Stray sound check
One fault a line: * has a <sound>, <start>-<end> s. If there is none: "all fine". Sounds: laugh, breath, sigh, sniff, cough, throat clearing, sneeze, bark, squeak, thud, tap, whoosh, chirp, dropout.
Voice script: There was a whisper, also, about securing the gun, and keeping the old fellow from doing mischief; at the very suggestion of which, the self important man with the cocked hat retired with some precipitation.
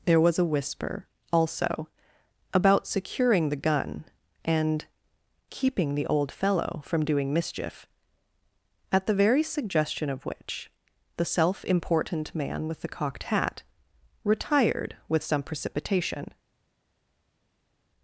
all fine